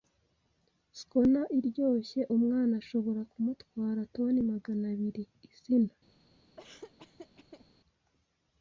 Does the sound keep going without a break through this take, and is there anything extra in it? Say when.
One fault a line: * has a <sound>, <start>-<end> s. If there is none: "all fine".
* has a laugh, 6.6-7.7 s